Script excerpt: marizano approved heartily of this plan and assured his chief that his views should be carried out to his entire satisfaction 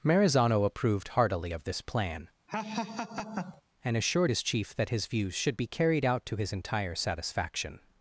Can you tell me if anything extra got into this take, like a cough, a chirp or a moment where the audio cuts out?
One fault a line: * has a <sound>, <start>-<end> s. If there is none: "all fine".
* has a laugh, 2.5-3.6 s